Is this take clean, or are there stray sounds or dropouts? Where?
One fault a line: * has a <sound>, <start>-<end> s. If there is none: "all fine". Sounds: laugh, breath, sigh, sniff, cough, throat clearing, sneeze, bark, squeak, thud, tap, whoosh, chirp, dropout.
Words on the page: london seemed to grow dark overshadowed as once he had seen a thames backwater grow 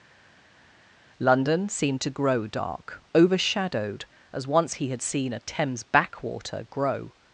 all fine